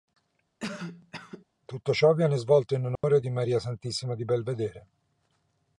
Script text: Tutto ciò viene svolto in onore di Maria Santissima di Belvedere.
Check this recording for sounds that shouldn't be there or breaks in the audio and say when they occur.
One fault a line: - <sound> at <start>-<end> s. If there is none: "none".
- cough at 0.6-1.5 s
- dropout at 3.0-3.0 s